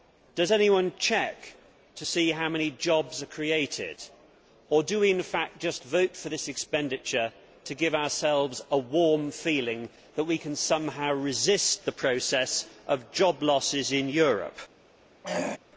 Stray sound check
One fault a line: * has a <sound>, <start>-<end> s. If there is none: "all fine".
* has a throat clearing, 15.2-15.6 s